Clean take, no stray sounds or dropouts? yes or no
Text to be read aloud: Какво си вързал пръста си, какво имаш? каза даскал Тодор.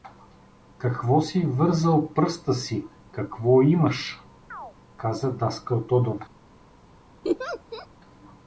no